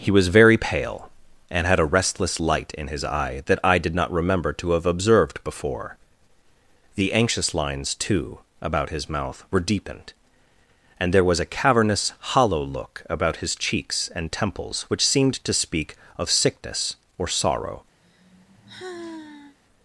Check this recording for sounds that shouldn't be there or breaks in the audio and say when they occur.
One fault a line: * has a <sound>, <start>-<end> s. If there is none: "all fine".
* has a sigh, 18.0-19.6 s